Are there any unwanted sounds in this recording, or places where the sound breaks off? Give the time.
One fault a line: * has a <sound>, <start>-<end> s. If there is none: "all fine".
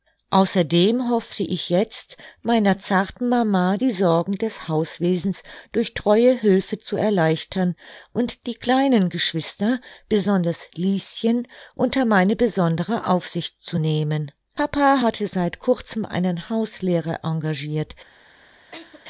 * has a laugh, 18.7-19.0 s